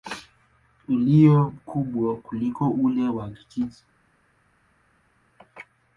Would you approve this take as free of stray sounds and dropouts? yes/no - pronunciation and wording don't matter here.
yes